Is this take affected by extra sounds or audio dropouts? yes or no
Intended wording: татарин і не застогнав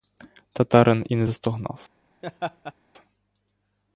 yes